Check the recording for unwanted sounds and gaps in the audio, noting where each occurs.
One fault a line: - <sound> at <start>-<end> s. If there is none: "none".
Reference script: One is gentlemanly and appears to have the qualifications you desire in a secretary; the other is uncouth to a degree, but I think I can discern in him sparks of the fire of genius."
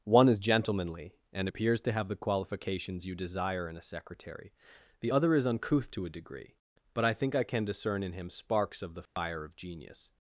- dropout at 9.1-9.2 s